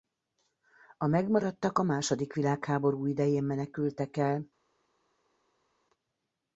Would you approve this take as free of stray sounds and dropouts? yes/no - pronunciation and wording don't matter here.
yes